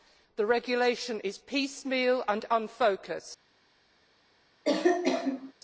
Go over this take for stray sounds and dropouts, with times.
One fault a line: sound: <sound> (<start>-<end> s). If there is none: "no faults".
sound: cough (4.6-5.5 s)